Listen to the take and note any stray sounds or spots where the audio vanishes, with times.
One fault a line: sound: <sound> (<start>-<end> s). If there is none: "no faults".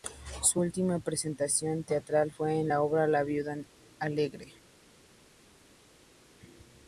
no faults